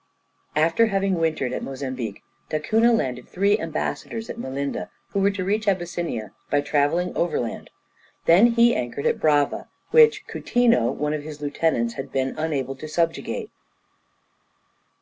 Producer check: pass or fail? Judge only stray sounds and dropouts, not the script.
pass